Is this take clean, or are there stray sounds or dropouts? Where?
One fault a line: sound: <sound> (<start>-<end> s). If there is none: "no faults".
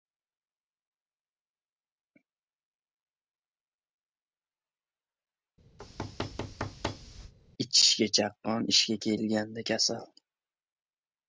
sound: thud (5.8-7.3 s)